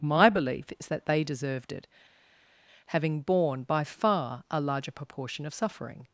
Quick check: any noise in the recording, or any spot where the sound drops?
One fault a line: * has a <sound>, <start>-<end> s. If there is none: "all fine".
all fine